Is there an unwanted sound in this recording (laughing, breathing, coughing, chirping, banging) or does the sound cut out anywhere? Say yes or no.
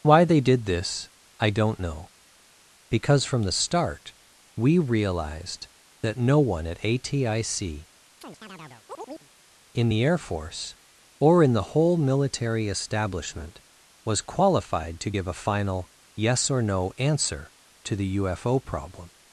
yes